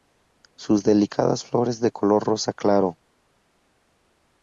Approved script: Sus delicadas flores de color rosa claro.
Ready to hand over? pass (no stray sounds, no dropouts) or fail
pass